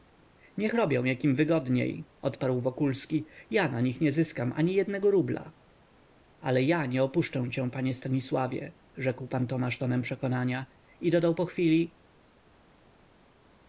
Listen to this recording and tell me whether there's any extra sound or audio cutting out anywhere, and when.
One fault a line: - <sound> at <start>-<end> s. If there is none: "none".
none